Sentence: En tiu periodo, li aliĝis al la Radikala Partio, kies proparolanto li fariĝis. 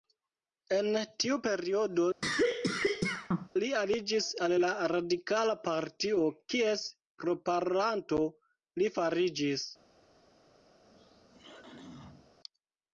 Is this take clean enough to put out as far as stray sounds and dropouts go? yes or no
no